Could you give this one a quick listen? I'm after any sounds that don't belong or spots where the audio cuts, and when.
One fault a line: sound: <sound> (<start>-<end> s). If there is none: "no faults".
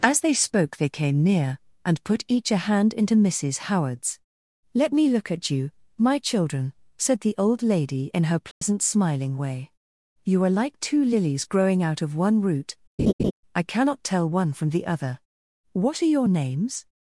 sound: dropout (8.5-8.6 s)
sound: laugh (13.0-13.3 s)